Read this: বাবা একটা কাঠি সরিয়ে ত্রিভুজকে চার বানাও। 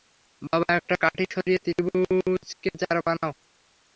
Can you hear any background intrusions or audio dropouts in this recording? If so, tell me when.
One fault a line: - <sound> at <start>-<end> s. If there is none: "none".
none